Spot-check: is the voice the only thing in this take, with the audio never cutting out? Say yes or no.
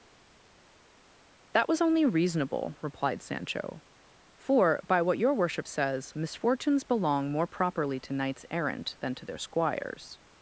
yes